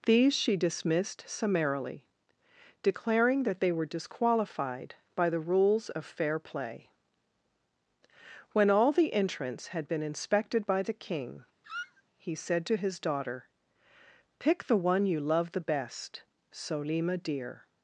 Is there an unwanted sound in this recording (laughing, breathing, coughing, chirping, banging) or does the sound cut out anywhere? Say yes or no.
yes